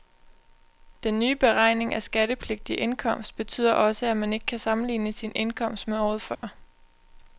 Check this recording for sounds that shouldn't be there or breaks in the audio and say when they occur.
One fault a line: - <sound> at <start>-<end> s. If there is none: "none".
- dropout at 6.3-6.4 s